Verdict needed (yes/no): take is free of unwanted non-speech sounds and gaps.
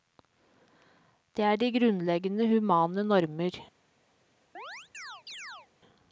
no